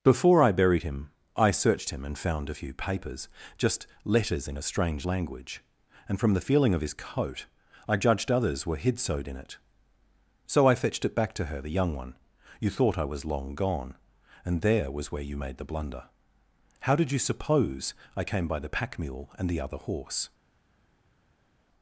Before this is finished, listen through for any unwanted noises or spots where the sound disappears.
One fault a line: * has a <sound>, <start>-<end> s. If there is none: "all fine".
all fine